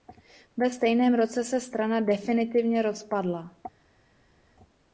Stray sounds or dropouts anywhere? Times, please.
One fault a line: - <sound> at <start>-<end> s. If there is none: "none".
none